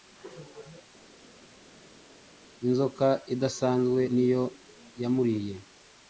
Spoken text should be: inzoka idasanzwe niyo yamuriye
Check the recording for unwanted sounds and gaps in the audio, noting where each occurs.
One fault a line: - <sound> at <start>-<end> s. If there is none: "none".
none